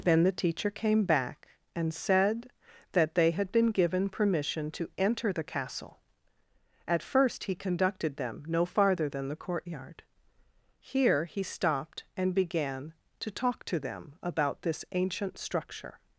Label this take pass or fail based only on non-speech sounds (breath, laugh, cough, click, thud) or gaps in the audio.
pass